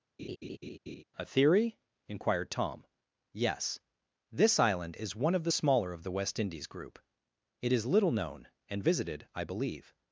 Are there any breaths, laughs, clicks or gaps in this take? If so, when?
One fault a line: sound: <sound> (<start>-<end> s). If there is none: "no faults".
sound: laugh (0.2-1.0 s)